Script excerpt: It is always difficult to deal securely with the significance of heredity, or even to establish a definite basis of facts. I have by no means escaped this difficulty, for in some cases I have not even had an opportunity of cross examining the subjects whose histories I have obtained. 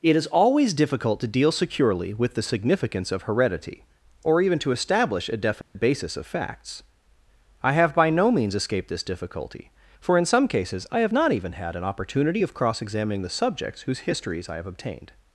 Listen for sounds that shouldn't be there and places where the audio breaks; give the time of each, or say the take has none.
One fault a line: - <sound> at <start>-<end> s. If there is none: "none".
- dropout at 5.6-5.8 s